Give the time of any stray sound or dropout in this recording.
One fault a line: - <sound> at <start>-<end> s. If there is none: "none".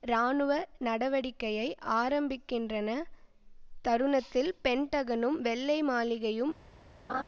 - laugh at 7.1-7.2 s